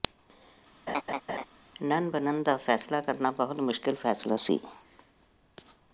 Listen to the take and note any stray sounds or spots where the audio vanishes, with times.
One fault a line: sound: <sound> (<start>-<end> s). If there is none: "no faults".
sound: laugh (0.9-1.5 s)